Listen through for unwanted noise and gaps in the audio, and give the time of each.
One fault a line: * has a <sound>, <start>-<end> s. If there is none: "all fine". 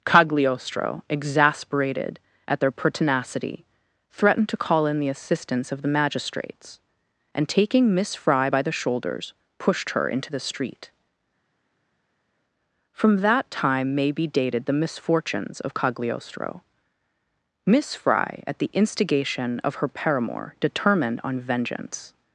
all fine